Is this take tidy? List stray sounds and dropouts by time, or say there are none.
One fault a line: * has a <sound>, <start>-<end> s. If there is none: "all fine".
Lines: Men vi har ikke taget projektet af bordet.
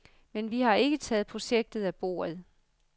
all fine